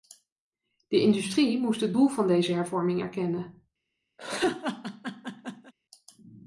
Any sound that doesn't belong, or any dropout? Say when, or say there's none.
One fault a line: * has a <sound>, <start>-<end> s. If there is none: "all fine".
* has a laugh, 4.2-5.7 s